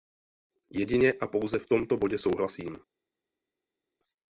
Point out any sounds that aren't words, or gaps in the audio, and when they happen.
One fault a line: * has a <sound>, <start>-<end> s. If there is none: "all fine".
all fine